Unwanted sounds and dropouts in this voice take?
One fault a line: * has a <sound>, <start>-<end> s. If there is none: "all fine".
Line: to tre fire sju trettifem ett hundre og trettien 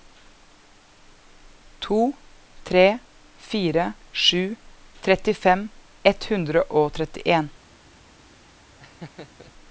* has a laugh, 8.8-9.5 s